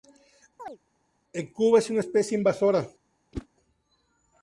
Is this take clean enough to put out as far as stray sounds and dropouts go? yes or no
no